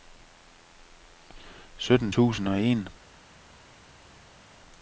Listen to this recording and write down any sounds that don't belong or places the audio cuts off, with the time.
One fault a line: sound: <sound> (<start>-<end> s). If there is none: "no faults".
no faults